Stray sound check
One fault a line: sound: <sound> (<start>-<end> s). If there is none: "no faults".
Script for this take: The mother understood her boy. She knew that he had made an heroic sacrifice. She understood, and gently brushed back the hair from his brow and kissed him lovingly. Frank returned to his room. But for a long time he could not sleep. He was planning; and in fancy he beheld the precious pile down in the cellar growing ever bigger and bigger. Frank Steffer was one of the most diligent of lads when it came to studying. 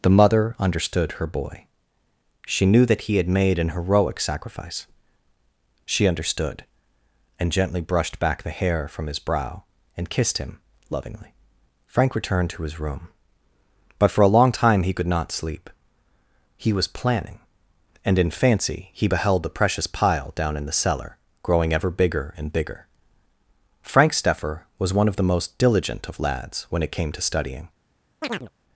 sound: chirp (28.2-28.5 s)